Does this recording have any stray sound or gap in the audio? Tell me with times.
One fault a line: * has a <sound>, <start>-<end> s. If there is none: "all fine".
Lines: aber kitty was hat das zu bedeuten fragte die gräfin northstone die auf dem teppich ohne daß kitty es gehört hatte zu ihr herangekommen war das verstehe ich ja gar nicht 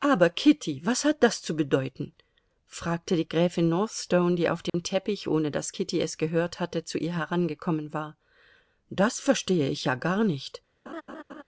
* has a dropout, 4.7-4.7 s
* has a laugh, 10.9-11.4 s